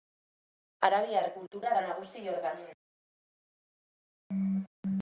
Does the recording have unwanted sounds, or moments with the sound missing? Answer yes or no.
no